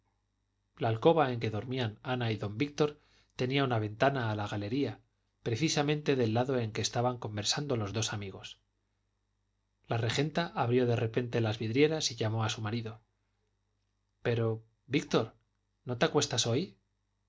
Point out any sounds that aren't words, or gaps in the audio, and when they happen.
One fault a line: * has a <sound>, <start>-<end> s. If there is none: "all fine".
all fine